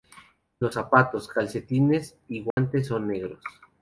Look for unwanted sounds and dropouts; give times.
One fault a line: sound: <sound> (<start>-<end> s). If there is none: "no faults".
sound: dropout (2.5-2.6 s)